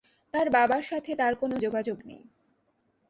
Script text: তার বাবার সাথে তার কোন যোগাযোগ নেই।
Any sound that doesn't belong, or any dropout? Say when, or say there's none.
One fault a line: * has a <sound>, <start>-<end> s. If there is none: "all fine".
all fine